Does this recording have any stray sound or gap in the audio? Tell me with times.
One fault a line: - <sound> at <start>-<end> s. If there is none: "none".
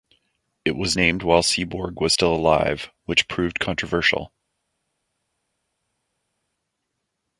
none